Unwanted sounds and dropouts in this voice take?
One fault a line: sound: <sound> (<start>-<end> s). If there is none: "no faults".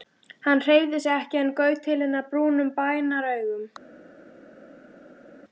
no faults